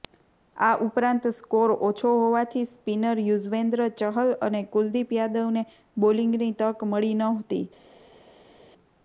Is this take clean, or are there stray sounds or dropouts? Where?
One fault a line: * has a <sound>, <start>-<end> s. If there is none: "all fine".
all fine